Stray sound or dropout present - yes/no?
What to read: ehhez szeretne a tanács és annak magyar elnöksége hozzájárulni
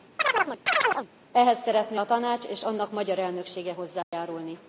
yes